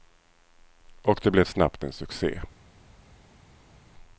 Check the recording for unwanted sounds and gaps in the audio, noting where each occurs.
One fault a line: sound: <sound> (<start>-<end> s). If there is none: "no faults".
no faults